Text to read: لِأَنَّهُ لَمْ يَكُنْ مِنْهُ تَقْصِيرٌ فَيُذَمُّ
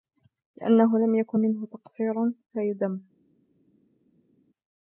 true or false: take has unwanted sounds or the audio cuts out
false